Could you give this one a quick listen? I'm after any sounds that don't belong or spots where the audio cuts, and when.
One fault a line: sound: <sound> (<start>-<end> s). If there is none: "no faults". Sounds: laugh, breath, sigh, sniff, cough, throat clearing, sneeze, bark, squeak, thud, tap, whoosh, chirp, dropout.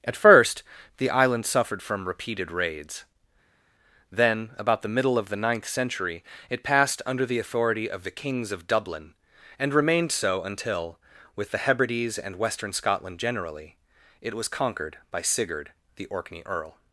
no faults